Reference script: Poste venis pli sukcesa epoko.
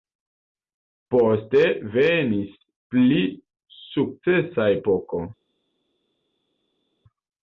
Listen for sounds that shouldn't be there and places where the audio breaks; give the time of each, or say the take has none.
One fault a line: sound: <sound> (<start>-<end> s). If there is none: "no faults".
no faults